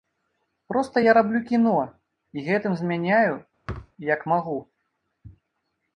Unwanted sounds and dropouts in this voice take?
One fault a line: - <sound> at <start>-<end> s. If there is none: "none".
- thud at 3.7-3.9 s